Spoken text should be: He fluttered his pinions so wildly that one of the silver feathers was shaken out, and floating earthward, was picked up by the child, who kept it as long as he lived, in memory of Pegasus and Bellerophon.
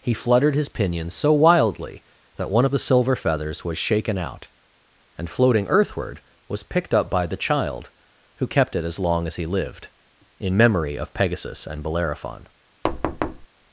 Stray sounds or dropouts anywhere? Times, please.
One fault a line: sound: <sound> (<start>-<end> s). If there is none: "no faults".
sound: thud (12.8-13.5 s)